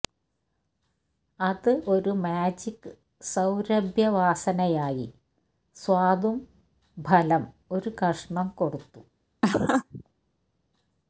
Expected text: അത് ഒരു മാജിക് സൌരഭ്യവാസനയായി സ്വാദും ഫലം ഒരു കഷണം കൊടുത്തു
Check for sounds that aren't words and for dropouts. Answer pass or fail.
fail